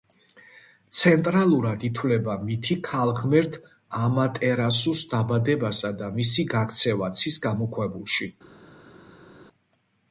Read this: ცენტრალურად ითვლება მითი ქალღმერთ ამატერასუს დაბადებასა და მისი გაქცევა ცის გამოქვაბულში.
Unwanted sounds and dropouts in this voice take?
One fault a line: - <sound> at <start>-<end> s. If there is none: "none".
none